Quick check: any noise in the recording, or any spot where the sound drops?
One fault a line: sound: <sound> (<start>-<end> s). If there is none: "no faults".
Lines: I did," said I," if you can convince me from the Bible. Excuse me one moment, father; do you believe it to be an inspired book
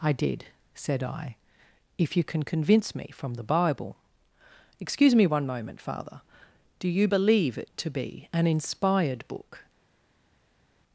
no faults